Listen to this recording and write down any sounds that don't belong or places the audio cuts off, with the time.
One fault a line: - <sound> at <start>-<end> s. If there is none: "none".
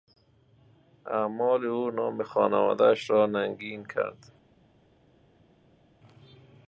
none